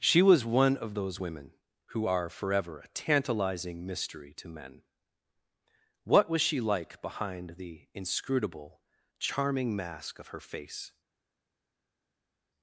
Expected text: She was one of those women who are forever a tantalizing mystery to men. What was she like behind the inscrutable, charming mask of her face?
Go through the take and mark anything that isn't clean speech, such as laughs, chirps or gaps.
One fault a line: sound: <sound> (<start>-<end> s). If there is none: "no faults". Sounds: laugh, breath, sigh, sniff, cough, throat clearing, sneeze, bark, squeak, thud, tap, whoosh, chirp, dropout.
no faults